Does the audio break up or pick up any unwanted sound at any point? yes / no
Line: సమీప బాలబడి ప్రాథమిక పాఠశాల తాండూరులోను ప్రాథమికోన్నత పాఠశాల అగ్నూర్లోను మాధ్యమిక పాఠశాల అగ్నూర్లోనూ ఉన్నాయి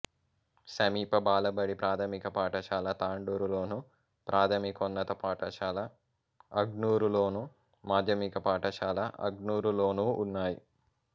no